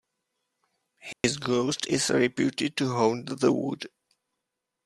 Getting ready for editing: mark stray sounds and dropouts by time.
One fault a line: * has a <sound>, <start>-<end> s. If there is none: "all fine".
* has a dropout, 1.1-1.2 s